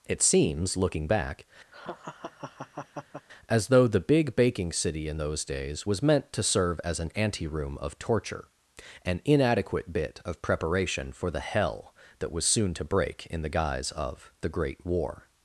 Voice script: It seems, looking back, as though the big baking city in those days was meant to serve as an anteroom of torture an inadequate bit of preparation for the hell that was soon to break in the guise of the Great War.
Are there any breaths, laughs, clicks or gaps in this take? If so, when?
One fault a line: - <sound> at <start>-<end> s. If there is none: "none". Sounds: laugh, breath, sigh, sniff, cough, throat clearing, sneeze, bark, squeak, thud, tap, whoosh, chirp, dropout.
- laugh at 1.7-3.3 s